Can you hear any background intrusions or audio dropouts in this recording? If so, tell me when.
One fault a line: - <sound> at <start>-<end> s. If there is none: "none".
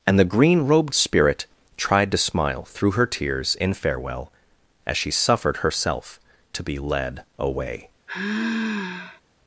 - sigh at 8.1-9.2 s